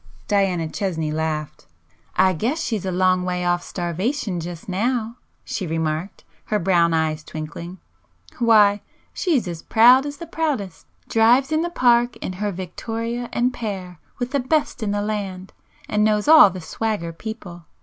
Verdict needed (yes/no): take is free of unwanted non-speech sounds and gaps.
yes